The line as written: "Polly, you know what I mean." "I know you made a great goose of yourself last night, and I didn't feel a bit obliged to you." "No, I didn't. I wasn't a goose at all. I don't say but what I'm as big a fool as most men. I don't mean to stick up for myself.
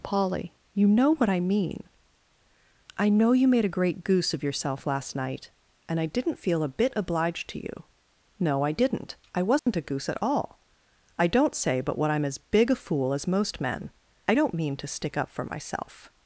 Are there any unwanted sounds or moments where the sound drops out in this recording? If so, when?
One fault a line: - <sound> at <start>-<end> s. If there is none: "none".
- dropout at 9.6-9.7 s